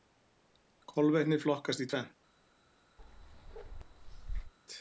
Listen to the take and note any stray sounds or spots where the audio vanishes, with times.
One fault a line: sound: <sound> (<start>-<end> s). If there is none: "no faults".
sound: bark (3.0-4.5 s)